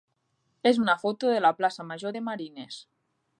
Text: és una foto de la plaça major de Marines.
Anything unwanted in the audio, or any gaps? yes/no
no